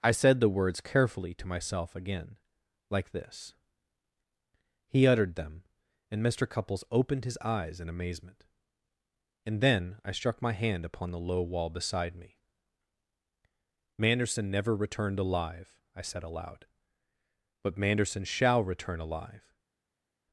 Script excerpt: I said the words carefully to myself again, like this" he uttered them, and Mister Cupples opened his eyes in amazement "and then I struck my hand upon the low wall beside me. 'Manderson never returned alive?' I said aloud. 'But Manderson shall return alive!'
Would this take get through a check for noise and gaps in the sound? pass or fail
pass